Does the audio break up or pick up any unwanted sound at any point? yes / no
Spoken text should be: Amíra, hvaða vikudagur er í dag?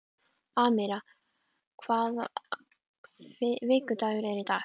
no